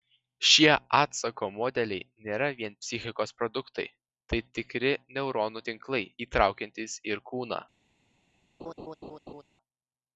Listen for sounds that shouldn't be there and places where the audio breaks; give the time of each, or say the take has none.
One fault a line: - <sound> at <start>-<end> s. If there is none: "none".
- laugh at 8.6-9.4 s